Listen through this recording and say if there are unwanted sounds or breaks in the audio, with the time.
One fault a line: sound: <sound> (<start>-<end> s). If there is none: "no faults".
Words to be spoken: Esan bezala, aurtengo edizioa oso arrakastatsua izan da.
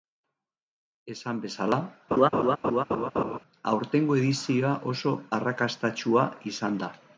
sound: laugh (2.1-3.4 s)